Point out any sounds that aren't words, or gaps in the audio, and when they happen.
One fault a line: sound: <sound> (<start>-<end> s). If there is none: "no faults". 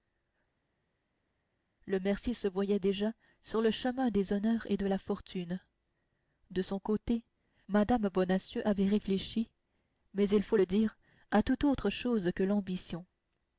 no faults